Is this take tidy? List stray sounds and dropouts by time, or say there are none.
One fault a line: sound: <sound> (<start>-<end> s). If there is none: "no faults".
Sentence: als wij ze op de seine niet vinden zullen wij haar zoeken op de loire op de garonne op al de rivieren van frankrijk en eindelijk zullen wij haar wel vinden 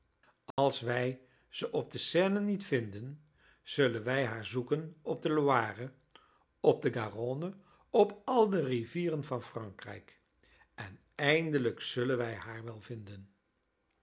sound: dropout (0.5-0.6 s)